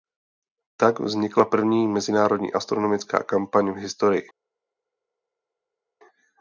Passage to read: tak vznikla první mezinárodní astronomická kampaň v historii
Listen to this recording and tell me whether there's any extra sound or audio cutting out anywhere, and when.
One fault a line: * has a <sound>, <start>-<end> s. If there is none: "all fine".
all fine